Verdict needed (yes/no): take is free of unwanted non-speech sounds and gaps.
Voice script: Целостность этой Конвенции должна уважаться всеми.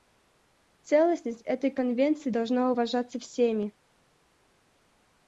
yes